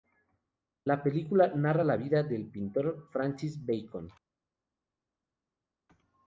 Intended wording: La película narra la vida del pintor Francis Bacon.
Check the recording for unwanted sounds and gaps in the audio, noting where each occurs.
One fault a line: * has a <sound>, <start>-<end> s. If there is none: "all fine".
all fine